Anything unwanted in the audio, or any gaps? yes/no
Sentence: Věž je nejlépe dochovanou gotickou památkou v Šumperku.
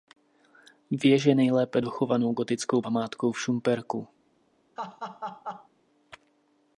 yes